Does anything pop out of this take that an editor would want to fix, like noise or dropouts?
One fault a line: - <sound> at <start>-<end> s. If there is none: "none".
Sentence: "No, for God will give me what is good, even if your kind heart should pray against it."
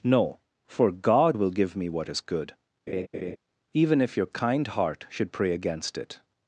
- laugh at 2.9-3.4 s